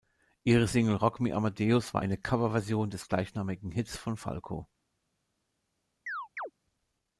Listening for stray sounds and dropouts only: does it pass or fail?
fail